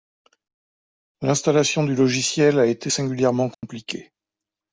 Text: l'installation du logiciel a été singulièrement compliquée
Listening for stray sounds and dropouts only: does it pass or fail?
fail